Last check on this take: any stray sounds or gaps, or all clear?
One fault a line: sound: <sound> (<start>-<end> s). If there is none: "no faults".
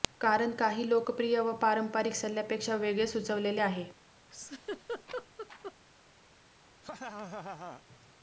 sound: laugh (4.3-5.7 s)
sound: laugh (6.8-7.8 s)